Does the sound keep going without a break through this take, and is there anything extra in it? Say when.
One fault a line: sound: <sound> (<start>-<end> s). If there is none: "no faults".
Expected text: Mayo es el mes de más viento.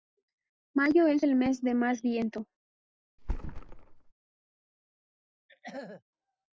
sound: thud (3.2-4.1 s)
sound: throat clearing (5.5-6.0 s)